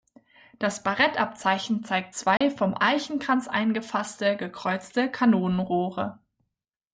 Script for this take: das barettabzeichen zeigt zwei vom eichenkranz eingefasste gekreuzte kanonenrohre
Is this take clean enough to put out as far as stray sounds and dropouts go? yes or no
no